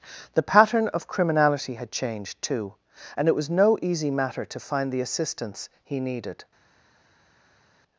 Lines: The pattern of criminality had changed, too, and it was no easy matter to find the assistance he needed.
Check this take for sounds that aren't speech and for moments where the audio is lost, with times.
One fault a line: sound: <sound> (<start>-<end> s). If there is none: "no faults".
no faults